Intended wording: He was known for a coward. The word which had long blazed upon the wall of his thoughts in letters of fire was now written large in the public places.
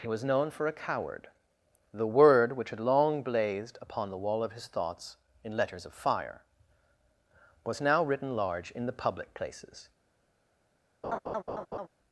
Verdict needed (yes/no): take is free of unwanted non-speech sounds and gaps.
no